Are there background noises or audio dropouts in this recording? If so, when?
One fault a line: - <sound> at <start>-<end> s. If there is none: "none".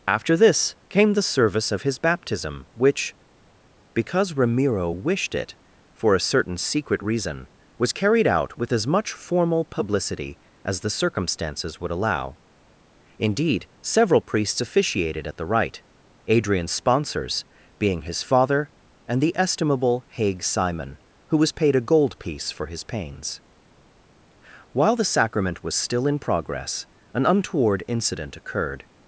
none